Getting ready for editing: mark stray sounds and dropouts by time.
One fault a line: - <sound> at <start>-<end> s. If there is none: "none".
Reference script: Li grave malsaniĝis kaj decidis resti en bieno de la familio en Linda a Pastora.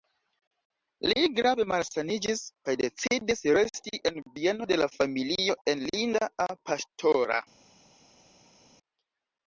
none